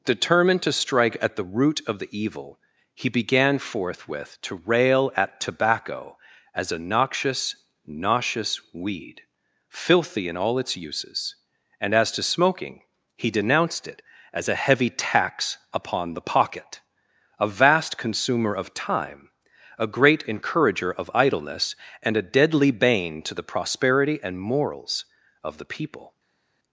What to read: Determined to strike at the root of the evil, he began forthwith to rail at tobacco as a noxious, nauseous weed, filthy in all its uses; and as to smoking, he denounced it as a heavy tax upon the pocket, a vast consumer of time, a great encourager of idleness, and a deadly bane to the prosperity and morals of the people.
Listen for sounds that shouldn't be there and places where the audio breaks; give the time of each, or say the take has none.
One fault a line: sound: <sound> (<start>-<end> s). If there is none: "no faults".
no faults